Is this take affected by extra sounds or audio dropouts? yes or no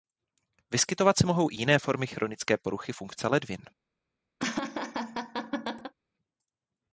yes